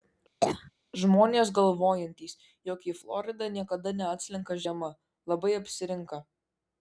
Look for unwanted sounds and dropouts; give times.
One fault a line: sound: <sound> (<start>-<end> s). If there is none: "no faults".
sound: cough (0.4-0.7 s)